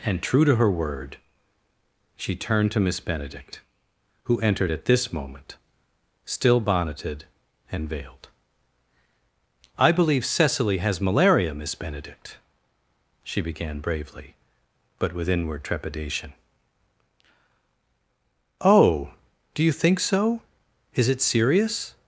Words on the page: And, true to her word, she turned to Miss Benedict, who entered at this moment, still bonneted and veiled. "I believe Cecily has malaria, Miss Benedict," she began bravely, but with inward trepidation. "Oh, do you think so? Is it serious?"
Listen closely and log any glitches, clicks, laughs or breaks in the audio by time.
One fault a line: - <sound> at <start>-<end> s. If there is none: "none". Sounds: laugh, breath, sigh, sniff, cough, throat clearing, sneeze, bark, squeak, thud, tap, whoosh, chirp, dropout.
none